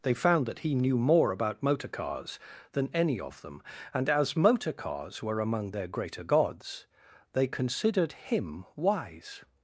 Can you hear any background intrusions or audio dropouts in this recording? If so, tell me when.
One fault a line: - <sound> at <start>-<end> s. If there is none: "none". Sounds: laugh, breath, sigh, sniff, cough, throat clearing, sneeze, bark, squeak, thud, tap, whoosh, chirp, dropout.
none